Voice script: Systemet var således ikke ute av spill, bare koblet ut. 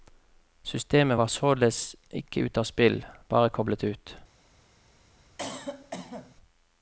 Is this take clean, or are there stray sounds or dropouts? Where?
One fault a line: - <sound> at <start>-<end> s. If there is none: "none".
- cough at 5.4-6.4 s